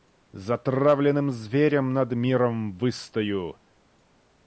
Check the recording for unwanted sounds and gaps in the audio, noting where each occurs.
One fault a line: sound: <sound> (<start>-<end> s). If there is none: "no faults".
no faults